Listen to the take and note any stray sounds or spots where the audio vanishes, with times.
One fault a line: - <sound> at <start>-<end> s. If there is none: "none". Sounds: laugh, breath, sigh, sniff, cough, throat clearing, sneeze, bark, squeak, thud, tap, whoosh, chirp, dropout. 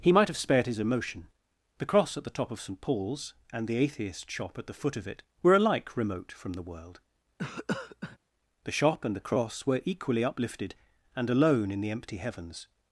- cough at 7.4-8.2 s